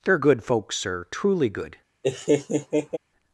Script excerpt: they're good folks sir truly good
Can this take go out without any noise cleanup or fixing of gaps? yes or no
no